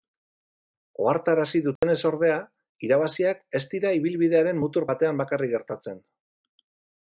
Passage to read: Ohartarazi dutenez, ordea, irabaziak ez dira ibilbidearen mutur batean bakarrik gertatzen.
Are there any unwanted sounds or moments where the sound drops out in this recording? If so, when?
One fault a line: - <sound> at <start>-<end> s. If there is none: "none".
- dropout at 1.8-1.8 s